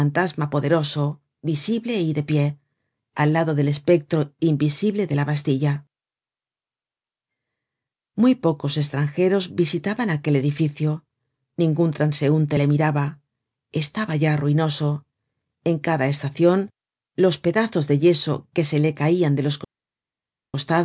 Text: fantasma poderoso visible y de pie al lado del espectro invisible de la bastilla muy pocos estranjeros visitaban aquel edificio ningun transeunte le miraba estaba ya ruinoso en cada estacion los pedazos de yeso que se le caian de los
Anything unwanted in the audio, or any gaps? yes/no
no